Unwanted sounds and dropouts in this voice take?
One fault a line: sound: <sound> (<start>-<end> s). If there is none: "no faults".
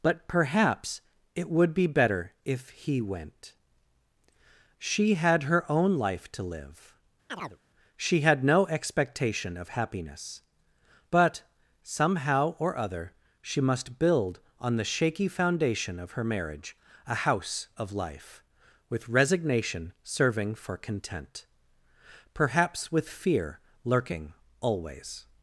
sound: chirp (7.3-7.6 s)